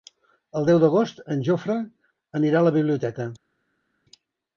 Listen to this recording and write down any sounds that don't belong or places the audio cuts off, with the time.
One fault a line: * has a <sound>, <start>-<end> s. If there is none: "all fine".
all fine